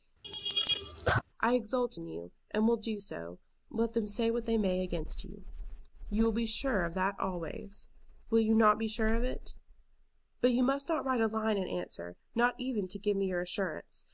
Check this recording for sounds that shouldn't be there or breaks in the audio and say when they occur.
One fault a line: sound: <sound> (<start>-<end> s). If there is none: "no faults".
sound: laugh (0.2-1.2 s)